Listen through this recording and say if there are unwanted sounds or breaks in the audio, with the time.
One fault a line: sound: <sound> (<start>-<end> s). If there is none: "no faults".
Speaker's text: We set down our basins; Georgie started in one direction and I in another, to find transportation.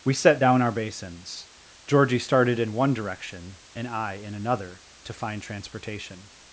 no faults